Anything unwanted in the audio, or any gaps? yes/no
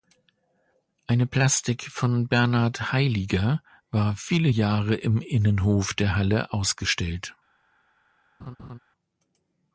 yes